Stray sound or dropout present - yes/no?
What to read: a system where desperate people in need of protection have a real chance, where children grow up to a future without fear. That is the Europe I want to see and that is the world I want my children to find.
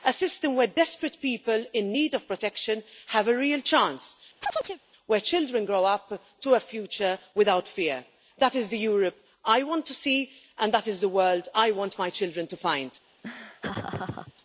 yes